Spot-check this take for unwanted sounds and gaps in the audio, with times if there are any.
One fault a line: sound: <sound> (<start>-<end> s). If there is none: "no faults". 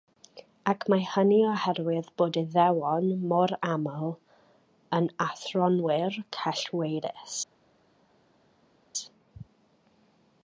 no faults